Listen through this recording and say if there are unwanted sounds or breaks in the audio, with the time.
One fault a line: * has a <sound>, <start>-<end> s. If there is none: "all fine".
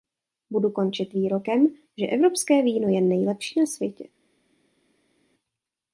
all fine